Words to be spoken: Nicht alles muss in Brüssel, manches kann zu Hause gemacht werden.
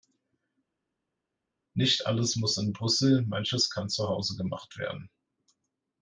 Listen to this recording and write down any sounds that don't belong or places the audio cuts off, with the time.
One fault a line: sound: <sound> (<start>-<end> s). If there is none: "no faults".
no faults